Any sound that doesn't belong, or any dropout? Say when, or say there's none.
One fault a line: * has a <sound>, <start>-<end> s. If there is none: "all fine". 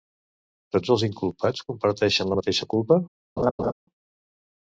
* has a laugh, 3.4-3.7 s